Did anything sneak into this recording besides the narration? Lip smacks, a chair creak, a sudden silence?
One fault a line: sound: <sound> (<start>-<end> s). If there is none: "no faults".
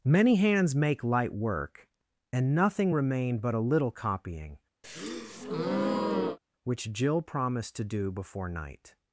sound: breath (4.8-6.4 s)